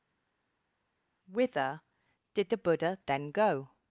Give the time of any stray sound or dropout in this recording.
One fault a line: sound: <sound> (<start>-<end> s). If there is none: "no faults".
no faults